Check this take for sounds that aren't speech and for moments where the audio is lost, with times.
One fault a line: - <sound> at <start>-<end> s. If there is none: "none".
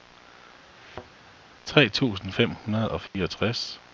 - thud at 0.8-1.1 s
- dropout at 3.1-3.1 s